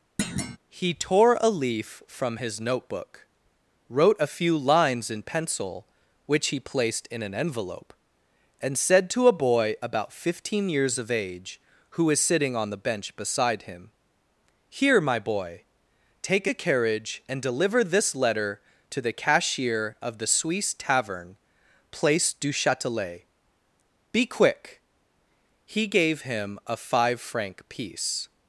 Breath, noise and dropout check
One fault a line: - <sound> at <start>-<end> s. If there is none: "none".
- thud at 0.2-0.6 s